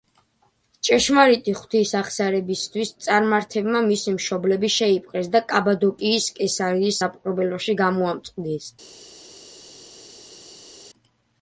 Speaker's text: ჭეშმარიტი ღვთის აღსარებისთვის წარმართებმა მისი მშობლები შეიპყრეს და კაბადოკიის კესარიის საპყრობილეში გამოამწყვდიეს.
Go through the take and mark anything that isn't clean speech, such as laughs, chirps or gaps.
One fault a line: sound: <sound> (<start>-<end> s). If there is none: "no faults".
no faults